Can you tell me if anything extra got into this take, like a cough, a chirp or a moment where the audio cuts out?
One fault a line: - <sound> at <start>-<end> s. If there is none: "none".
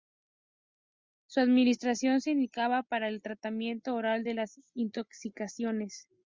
none